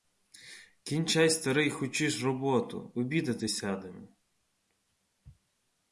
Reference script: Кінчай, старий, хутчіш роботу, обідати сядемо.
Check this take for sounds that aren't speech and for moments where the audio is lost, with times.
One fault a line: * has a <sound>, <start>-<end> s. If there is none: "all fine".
all fine